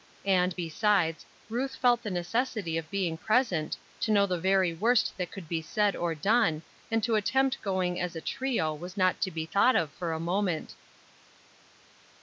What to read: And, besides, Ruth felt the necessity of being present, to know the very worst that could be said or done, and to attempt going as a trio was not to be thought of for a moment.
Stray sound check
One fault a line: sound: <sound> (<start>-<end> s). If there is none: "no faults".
no faults